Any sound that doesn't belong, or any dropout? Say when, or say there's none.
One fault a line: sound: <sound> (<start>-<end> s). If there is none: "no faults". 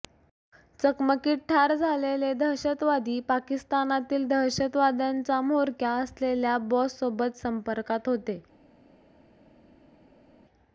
no faults